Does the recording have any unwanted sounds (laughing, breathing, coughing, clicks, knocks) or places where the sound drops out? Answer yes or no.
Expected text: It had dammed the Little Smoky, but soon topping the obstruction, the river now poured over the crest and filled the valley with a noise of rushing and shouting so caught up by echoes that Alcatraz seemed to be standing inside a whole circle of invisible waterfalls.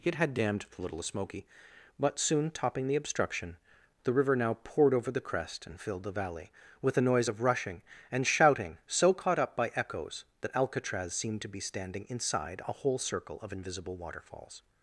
no